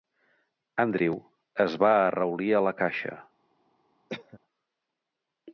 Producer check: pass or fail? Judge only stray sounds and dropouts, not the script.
fail